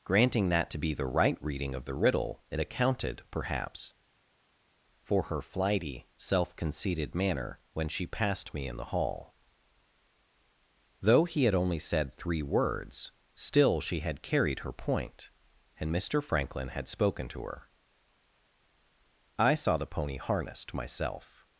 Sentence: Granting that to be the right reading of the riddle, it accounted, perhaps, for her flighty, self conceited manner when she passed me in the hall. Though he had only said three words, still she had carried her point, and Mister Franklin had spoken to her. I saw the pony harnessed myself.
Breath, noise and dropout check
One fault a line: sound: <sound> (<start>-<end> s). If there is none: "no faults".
no faults